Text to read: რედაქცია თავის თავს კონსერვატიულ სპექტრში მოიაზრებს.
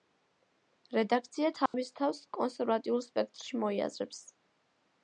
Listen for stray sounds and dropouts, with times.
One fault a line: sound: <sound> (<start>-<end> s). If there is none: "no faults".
sound: dropout (1.7-1.7 s)